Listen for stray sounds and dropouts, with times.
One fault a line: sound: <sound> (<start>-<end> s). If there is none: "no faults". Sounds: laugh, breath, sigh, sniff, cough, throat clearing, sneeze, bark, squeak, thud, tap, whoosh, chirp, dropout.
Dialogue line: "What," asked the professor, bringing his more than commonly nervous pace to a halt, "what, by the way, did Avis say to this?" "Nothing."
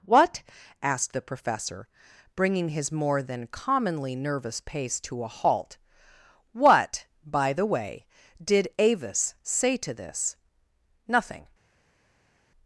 no faults